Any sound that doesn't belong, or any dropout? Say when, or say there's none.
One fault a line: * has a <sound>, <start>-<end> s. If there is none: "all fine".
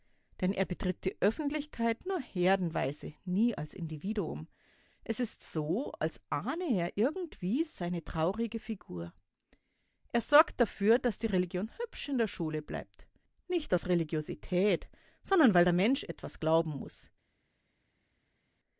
all fine